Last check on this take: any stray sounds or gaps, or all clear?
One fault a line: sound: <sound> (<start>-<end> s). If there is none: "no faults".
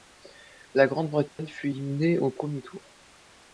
sound: dropout (1.3-1.4 s)